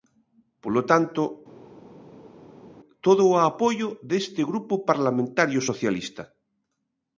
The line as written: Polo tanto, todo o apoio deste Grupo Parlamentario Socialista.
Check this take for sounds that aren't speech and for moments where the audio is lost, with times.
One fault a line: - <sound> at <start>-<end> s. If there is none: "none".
none